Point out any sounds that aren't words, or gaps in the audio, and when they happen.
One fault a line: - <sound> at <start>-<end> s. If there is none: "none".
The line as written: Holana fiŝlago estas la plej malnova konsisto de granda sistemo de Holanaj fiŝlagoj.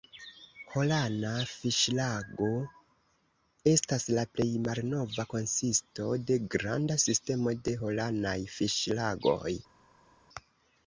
none